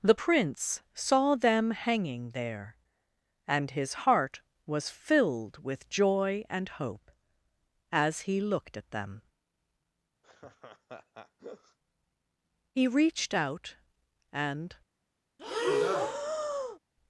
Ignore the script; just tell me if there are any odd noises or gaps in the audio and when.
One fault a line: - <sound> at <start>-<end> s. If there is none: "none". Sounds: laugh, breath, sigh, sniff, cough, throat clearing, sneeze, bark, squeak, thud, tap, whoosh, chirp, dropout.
- laugh at 10.2-11.8 s
- breath at 15.4-16.8 s